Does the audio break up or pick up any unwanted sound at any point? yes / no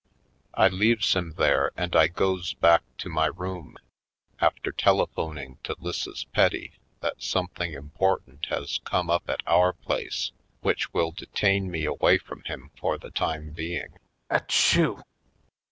yes